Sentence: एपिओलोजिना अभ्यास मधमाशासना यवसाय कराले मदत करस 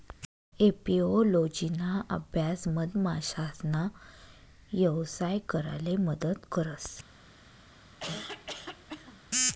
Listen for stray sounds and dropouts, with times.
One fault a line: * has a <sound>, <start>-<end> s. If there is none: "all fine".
* has a cough, 8.0-9.2 s